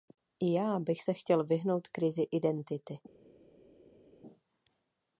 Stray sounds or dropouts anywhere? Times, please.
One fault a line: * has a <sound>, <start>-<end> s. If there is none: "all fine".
all fine